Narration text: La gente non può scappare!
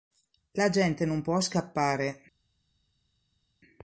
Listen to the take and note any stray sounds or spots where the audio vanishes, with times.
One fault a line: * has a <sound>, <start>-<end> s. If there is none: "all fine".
all fine